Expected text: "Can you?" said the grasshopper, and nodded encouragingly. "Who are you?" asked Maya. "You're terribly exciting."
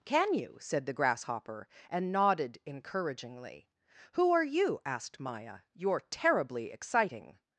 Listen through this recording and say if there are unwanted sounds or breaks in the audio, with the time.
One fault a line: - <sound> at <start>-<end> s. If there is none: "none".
none